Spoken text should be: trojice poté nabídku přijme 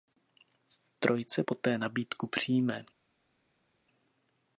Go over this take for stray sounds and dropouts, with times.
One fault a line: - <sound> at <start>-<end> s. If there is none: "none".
none